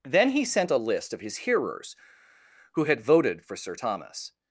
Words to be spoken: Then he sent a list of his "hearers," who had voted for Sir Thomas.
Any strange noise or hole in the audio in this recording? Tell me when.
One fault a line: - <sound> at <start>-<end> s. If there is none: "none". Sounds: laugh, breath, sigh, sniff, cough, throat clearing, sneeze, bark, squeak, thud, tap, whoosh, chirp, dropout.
none